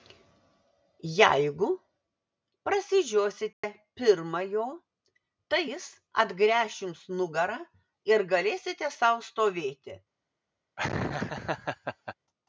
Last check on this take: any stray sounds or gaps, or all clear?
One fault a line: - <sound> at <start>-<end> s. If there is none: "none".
- dropout at 3.5-3.6 s
- laugh at 10.8-12.1 s